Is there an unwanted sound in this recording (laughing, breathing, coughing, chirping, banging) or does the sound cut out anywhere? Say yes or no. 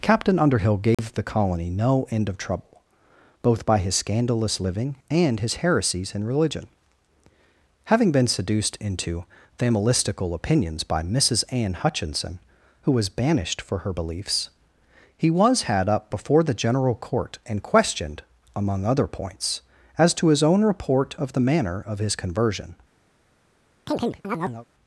yes